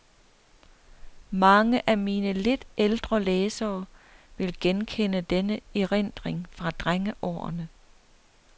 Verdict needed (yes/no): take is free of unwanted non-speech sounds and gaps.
yes